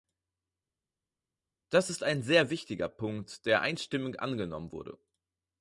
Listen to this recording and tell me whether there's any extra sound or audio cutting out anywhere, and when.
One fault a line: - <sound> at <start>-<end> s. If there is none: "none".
none